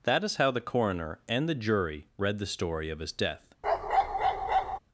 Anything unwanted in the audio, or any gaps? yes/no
yes